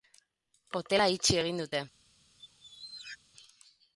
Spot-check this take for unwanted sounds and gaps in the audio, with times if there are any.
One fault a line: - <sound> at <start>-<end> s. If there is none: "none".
- squeak at 2.4-3.2 s